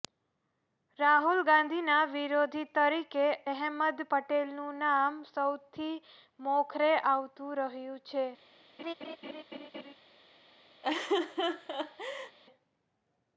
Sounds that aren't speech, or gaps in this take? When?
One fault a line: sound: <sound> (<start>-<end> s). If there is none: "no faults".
sound: laugh (8.8-9.9 s)
sound: laugh (10.8-12.4 s)